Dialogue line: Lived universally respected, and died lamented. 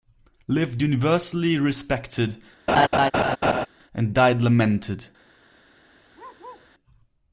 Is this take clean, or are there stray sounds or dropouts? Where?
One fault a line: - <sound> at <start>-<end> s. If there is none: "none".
- laugh at 2.7-3.7 s
- bark at 6.1-6.7 s